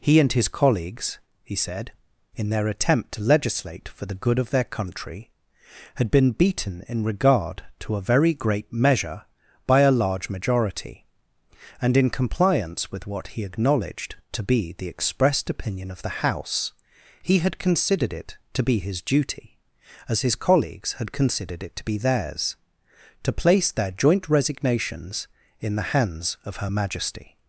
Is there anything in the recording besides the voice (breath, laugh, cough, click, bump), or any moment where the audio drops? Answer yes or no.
no